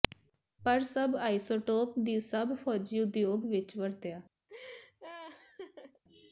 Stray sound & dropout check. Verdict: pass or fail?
fail